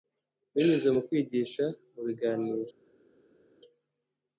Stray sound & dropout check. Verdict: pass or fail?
pass